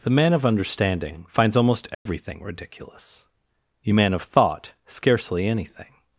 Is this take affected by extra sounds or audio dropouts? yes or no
yes